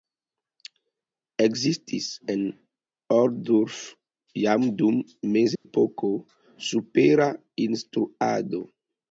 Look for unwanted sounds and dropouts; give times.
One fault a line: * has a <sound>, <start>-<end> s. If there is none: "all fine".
* has a dropout, 5.6-5.6 s